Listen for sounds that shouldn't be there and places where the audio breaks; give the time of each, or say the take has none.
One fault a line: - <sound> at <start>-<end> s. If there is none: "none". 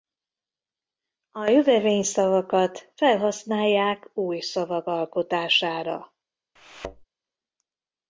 - thud at 6.6-7.1 s